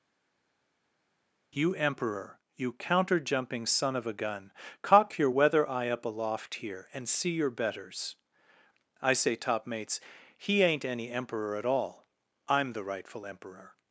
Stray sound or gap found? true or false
false